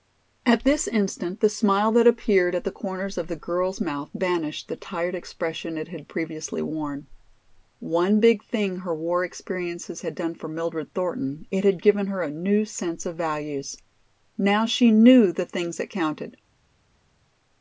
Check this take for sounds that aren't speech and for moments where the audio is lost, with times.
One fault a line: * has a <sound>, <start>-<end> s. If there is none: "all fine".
all fine